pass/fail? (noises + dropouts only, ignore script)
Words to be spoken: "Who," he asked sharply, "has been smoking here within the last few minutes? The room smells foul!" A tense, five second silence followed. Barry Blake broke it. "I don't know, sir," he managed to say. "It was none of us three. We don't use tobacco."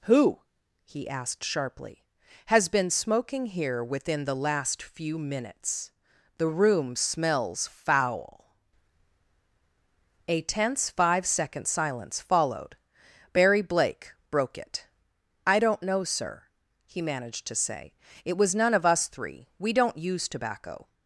pass